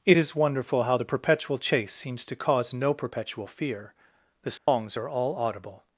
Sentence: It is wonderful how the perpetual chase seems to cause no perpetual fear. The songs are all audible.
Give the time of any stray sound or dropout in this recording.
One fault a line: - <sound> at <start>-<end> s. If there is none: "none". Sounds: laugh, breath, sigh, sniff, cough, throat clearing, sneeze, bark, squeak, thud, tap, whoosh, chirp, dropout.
- dropout at 4.6-4.7 s